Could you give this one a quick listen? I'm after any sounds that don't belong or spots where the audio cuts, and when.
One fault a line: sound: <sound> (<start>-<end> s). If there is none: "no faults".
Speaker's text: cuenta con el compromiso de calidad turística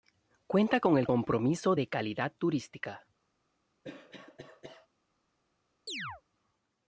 sound: cough (3.8-4.9 s)
sound: chirp (5.9-6.2 s)